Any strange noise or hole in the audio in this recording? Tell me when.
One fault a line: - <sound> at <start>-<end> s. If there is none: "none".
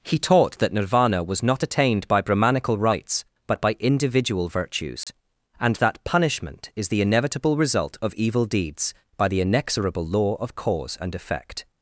- dropout at 5.0-5.1 s